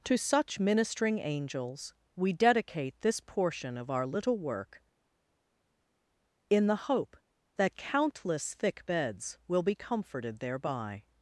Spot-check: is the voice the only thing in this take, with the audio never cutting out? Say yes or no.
yes